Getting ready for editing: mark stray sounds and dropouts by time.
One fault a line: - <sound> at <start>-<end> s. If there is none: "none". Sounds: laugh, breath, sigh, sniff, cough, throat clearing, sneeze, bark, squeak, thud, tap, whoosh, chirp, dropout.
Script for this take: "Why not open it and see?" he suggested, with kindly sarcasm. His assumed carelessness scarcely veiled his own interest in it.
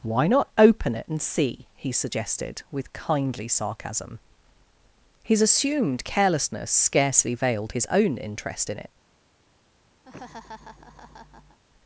- laugh at 10.0-11.6 s